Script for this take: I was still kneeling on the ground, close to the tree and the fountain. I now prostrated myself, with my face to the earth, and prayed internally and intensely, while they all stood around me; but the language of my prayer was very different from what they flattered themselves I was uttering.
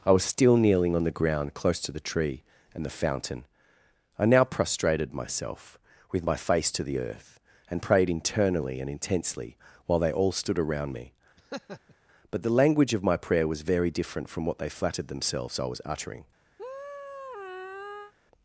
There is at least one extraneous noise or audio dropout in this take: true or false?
true